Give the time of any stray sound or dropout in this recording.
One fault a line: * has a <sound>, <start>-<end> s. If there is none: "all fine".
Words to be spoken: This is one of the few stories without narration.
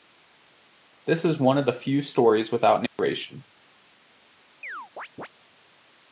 * has a dropout, 2.9-3.0 s
* has a chirp, 4.6-5.3 s